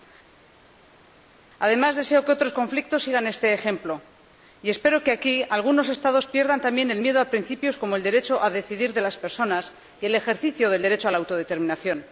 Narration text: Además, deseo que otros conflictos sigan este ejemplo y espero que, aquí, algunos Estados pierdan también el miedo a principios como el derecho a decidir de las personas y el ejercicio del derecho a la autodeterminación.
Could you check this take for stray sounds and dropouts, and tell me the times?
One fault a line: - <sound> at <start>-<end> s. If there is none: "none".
none